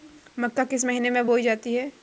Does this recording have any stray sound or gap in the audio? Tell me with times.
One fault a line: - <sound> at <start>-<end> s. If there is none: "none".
none